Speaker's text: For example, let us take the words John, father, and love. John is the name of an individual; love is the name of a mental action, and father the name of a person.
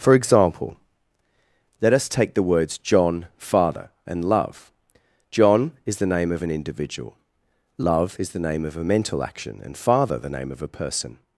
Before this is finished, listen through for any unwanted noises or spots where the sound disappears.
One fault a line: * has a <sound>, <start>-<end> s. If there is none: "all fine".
all fine